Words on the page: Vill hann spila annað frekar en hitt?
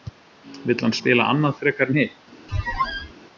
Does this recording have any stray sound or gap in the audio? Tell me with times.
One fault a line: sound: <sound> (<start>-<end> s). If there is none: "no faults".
sound: squeak (2.5-3.1 s)